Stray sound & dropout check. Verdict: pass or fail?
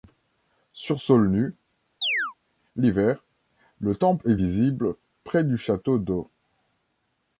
fail